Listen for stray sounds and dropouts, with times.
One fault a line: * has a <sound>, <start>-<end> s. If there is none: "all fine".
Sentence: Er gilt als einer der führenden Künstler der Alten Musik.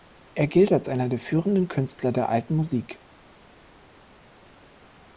all fine